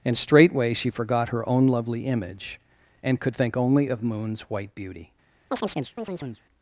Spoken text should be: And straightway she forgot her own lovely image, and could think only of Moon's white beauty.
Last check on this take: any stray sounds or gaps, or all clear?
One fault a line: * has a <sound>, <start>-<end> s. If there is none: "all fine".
* has a chirp, 5.5-6.4 s